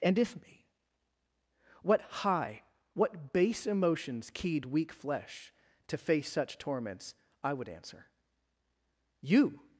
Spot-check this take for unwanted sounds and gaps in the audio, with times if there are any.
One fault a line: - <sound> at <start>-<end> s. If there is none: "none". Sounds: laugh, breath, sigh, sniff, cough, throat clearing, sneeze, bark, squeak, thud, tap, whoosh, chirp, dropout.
none